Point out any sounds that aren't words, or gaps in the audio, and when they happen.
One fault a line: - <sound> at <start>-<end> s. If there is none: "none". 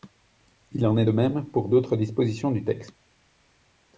none